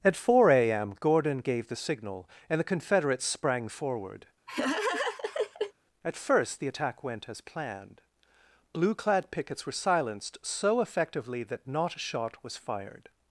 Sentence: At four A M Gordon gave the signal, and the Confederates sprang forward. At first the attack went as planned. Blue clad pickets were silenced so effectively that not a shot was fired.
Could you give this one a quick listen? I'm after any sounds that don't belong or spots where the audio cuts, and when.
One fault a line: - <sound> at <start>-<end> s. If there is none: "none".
- laugh at 4.5-5.7 s